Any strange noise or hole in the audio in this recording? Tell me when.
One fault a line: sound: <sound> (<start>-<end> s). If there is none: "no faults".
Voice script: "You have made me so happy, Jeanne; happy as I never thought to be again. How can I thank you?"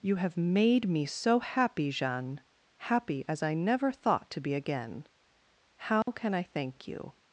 sound: dropout (6.0-6.1 s)